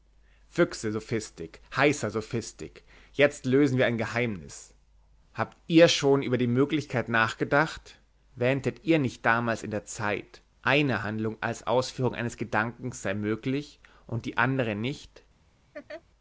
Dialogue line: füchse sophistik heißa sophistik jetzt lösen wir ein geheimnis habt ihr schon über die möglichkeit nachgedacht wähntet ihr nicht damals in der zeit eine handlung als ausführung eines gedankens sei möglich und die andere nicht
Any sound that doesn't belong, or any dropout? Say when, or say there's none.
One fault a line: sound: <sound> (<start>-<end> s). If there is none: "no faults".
sound: laugh (15.7-16.0 s)